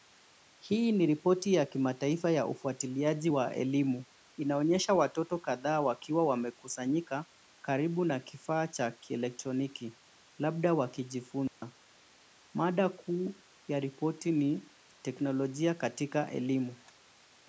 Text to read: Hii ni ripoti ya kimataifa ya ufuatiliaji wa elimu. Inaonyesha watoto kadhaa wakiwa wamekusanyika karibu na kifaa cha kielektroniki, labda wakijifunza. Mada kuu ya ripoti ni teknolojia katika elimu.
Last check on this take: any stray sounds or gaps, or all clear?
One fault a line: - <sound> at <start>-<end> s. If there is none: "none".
- dropout at 11.5-11.6 s